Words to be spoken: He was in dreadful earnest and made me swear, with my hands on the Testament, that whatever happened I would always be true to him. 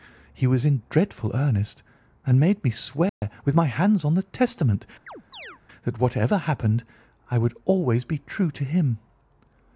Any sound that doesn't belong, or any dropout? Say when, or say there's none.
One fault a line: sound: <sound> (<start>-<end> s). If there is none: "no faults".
sound: dropout (3.1-3.2 s)
sound: chirp (5.1-5.6 s)